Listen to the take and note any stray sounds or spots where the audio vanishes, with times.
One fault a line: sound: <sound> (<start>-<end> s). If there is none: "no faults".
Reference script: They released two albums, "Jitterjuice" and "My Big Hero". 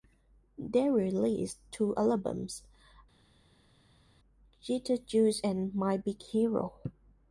no faults